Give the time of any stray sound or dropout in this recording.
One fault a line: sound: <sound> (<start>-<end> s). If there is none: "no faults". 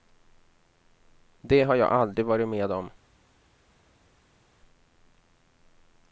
no faults